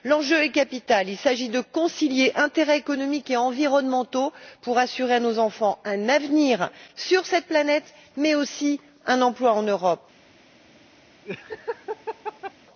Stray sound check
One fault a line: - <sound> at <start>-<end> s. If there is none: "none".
- laugh at 11.2-12.5 s